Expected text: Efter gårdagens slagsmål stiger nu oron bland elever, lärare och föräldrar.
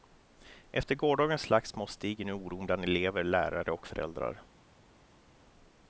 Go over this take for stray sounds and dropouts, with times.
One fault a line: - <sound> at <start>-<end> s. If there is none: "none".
none